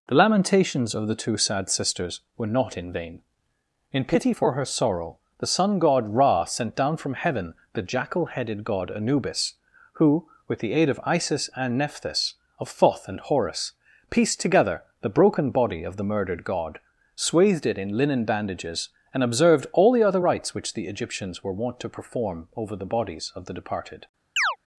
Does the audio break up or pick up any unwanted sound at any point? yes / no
yes